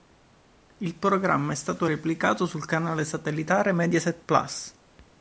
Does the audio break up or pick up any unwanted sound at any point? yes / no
no